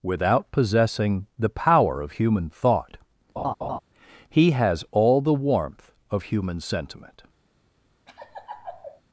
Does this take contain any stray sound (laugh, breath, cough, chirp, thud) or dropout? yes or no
yes